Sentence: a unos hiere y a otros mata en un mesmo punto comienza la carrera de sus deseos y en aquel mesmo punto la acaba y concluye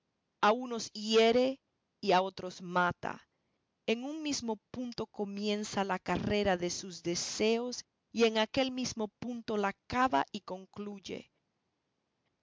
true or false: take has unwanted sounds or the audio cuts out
false